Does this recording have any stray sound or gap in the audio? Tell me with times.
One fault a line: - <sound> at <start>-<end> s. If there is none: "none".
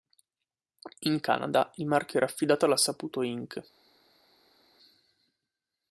none